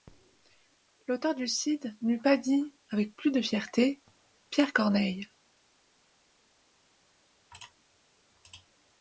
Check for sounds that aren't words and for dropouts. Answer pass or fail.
pass